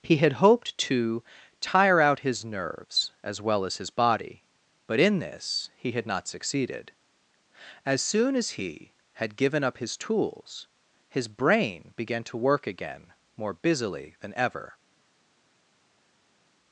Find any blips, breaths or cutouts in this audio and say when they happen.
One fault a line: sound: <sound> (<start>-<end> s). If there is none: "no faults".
no faults